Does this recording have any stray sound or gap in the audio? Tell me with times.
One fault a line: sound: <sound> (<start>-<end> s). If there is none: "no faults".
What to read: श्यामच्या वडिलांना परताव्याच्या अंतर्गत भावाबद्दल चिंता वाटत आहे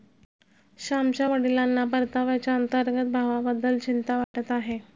sound: dropout (4.2-4.3 s)